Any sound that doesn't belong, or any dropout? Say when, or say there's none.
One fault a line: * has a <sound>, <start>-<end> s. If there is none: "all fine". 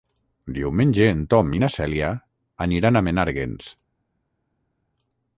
all fine